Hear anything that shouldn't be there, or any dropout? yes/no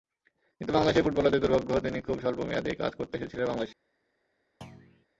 yes